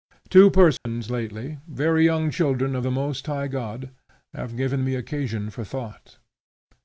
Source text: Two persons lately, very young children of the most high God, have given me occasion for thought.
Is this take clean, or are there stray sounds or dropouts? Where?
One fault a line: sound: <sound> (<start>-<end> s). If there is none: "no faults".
sound: dropout (0.8-0.9 s)